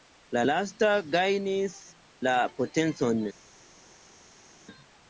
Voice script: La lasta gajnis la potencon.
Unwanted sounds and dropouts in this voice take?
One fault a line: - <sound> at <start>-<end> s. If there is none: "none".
none